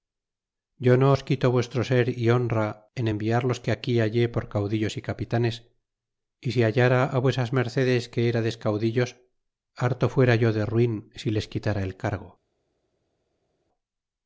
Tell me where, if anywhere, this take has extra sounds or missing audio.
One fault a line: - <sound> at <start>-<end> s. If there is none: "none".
none